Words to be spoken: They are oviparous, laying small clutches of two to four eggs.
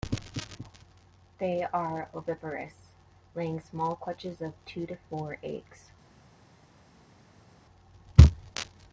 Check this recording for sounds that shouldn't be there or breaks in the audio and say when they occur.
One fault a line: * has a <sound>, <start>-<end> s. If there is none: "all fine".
all fine